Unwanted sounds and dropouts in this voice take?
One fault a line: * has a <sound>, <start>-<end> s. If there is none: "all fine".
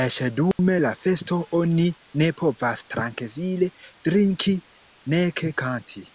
* has a dropout, 0.5-0.6 s